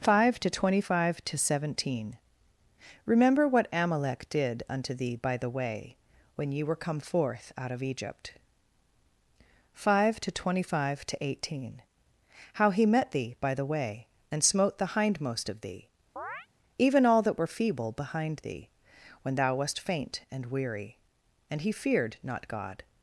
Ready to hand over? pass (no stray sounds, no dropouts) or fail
fail